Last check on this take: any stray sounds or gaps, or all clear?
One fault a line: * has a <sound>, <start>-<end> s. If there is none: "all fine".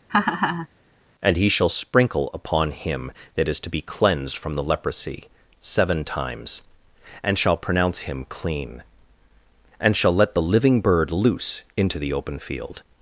* has a laugh, 0.1-0.7 s